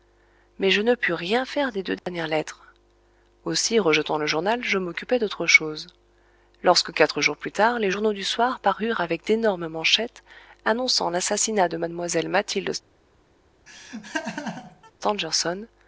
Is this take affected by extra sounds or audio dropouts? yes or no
yes